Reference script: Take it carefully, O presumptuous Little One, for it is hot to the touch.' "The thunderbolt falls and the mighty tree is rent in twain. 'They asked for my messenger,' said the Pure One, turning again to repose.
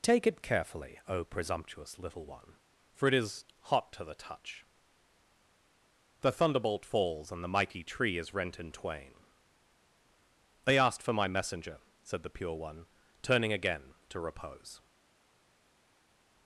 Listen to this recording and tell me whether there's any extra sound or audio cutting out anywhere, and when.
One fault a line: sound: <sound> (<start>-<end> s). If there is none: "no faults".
no faults